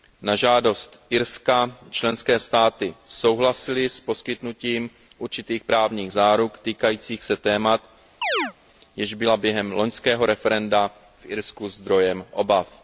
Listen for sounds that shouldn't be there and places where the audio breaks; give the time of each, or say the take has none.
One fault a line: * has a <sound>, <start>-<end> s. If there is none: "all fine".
* has a chirp, 8.2-8.5 s